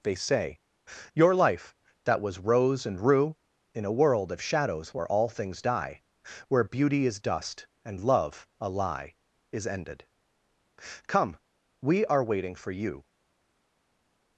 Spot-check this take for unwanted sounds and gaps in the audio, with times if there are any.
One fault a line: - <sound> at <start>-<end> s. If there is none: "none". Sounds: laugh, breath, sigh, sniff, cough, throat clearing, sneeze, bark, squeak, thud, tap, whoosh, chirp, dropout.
none